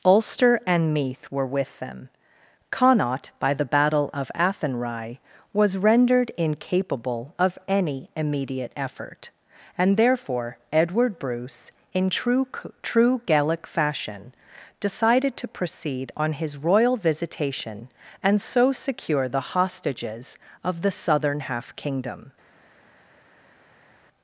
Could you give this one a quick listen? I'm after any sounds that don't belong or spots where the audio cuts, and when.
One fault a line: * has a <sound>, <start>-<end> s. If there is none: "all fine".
all fine